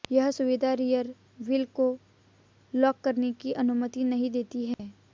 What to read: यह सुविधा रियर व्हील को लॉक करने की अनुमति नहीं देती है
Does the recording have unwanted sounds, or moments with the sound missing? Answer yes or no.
yes